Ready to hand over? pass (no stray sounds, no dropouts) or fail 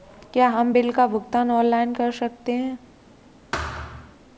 fail